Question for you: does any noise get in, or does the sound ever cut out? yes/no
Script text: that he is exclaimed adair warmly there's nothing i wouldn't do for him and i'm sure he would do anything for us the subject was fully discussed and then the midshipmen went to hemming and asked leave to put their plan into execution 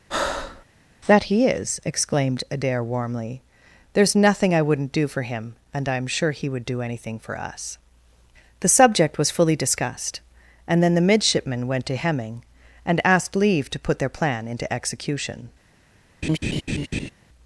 yes